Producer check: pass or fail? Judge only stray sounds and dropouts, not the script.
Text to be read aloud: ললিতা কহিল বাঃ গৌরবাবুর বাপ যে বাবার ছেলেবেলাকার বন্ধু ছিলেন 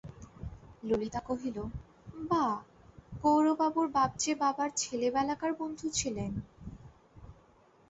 pass